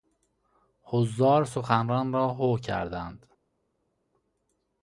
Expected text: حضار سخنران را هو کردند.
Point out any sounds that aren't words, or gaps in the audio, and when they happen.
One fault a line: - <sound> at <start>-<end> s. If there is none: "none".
none